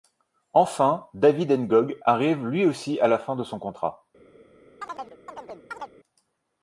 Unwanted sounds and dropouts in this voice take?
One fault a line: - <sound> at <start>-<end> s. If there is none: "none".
- chirp at 4.8-5.9 s